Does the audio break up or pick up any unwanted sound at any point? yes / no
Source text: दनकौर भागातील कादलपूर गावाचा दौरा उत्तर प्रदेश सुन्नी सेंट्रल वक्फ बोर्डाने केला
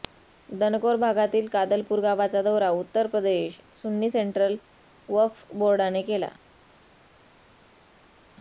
no